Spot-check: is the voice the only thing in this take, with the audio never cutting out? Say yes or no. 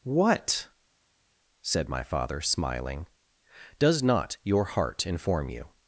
yes